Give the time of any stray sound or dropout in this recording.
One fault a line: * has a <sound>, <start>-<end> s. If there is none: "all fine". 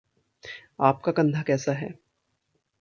all fine